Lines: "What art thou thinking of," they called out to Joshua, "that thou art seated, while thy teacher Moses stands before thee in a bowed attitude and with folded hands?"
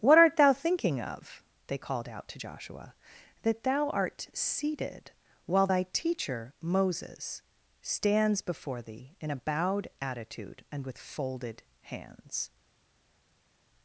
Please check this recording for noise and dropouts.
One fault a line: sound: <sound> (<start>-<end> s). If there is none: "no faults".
no faults